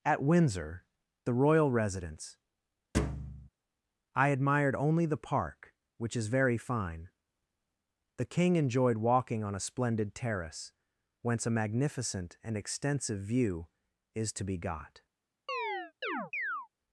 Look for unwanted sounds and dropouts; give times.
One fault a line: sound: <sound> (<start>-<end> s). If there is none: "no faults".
sound: thud (2.9-3.5 s)
sound: chirp (15.5-16.7 s)